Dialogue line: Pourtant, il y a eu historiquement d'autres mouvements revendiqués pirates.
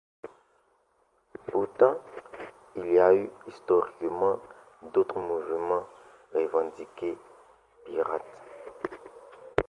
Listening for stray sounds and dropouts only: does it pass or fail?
pass